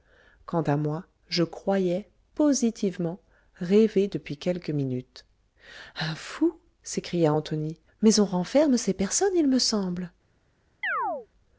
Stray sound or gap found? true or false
true